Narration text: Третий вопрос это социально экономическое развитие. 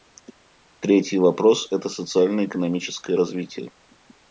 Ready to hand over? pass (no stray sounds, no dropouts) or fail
pass